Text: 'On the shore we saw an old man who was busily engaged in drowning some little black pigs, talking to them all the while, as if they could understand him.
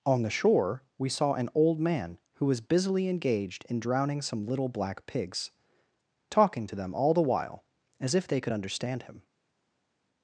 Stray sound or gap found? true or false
false